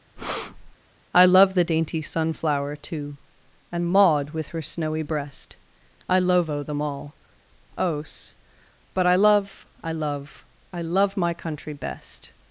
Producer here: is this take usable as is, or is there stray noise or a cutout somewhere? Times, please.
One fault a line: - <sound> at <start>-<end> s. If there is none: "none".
- breath at 0.2-0.8 s